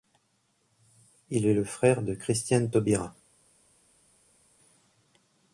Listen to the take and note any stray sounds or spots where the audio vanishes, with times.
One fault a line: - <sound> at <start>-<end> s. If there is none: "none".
none